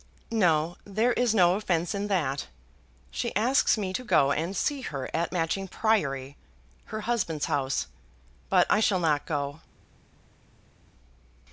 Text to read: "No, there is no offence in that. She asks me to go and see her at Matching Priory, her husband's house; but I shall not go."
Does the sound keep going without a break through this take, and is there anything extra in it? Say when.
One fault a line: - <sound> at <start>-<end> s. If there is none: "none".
none